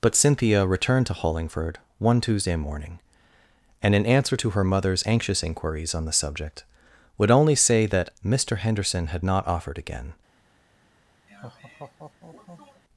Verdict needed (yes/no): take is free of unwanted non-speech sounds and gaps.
no